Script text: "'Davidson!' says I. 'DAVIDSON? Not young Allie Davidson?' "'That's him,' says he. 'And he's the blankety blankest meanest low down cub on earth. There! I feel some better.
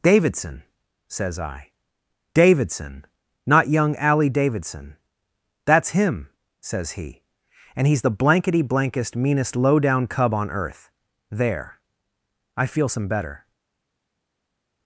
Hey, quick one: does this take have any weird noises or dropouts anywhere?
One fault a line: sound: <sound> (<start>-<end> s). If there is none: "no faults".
no faults